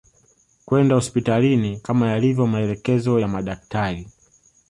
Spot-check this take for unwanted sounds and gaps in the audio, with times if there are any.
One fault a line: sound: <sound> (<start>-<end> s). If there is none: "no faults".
no faults